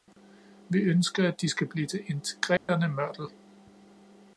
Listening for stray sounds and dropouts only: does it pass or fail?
fail